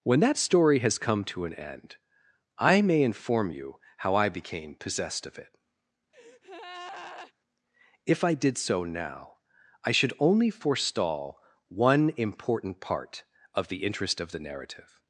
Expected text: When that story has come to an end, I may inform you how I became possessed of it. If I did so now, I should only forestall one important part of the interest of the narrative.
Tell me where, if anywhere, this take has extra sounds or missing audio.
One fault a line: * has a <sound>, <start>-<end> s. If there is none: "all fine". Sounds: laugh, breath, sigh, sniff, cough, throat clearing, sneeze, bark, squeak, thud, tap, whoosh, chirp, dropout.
* has a breath, 6.1-7.3 s